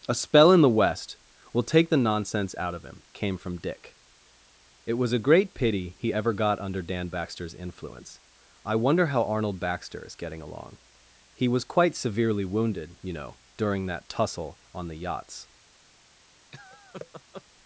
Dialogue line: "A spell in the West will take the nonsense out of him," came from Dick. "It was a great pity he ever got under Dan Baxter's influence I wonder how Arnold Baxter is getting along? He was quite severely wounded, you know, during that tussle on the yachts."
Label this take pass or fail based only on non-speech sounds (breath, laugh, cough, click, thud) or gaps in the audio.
fail